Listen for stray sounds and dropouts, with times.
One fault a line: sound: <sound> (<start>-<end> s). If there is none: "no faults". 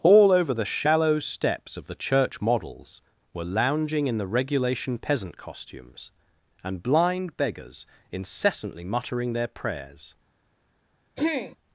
sound: throat clearing (11.2-11.6 s)